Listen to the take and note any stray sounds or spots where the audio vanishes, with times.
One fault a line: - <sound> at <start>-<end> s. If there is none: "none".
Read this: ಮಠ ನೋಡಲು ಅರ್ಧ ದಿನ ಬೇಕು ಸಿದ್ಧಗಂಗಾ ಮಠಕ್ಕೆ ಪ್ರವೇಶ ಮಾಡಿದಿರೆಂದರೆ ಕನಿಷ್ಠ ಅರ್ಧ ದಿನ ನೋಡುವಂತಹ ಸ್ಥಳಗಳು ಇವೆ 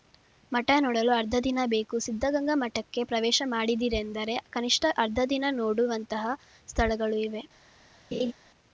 - laugh at 8.1-8.3 s